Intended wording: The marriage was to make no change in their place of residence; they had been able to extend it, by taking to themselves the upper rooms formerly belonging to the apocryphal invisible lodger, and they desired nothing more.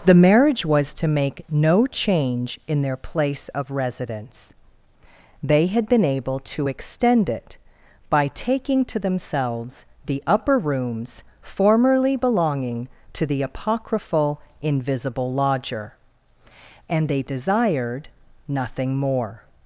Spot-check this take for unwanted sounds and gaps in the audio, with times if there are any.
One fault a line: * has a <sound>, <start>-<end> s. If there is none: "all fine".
all fine